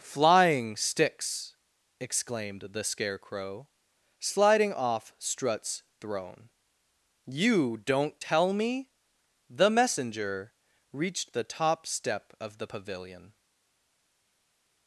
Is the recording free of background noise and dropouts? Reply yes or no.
yes